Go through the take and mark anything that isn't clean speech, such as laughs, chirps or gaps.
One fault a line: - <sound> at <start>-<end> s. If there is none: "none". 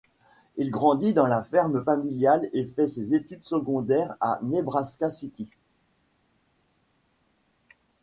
none